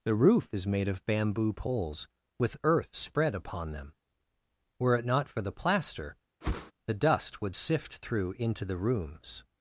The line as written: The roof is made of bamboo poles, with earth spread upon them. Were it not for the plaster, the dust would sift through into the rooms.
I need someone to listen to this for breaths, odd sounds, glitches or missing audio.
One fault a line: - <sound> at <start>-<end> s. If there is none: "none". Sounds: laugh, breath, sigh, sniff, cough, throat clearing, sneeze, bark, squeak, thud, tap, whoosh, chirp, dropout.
- whoosh at 6.4-6.7 s